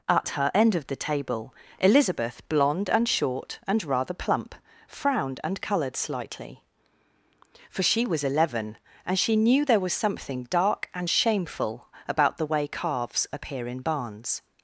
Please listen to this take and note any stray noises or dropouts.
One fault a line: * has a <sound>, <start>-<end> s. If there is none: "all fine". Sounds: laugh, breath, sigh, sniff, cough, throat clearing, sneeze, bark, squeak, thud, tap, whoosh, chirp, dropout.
all fine